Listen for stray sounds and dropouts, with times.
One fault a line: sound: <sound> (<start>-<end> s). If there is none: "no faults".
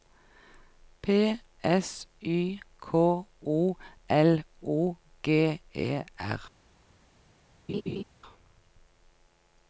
sound: laugh (7.7-8.0 s)